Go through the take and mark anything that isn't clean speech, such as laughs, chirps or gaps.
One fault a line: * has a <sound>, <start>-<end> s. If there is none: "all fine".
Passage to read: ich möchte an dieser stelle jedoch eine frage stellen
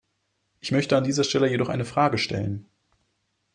all fine